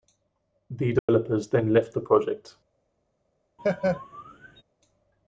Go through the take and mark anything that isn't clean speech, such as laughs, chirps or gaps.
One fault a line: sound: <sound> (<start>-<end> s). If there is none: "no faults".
sound: dropout (1.0-1.1 s)
sound: laugh (3.6-4.6 s)